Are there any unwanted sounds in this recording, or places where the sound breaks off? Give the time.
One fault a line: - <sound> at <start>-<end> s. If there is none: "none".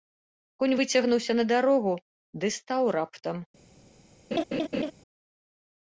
- laugh at 4.3-4.9 s